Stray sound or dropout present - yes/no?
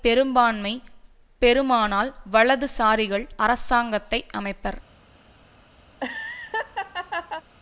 yes